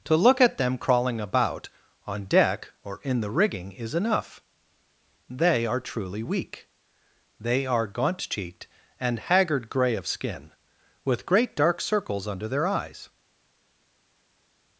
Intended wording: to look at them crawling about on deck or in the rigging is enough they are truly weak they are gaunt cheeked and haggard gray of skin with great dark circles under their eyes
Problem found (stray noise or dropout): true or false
false